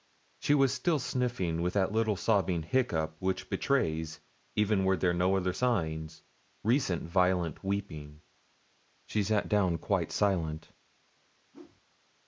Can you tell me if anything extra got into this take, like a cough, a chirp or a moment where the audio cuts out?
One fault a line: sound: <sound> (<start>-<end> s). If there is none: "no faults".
sound: whoosh (11.5-11.8 s)